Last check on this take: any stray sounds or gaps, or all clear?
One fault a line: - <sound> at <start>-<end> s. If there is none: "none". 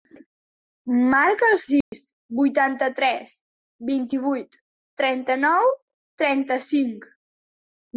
- dropout at 1.8-1.9 s